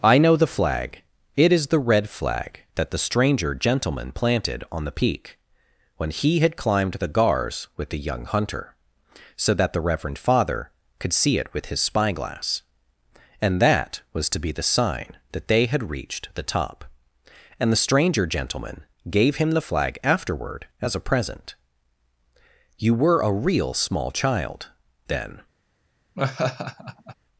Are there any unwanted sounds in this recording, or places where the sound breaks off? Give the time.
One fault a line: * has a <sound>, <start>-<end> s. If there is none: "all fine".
* has a laugh, 26.2-27.2 s